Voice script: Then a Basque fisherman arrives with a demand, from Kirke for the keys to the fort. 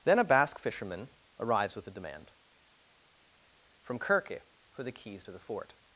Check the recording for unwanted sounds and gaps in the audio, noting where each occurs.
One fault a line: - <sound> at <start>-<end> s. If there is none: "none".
none